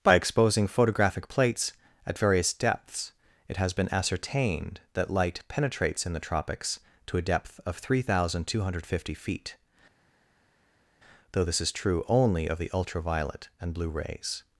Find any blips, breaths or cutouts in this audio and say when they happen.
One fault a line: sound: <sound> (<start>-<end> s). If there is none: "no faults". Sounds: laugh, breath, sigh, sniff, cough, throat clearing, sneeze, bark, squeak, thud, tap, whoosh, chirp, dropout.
no faults